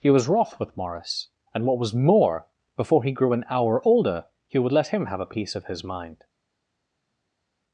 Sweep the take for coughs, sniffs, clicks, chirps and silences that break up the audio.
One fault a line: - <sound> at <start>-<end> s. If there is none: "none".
none